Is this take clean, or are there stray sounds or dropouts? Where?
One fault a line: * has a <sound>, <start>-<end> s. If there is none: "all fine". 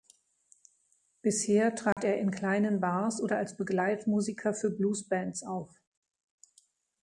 * has a dropout, 1.9-2.0 s